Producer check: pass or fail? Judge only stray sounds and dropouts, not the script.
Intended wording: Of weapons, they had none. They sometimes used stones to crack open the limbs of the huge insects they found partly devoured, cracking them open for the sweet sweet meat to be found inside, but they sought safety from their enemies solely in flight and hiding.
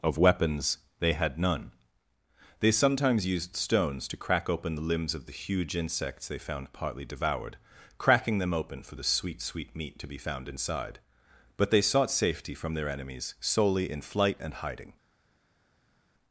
pass